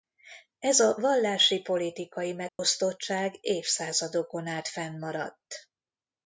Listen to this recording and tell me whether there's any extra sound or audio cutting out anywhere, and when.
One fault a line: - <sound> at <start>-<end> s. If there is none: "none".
- dropout at 2.5-2.6 s